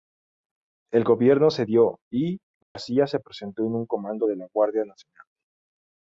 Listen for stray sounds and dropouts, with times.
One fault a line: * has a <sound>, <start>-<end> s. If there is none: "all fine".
* has a dropout, 2.6-2.8 s